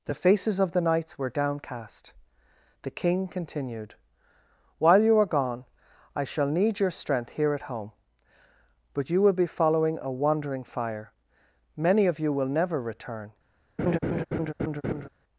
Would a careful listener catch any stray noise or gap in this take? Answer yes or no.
yes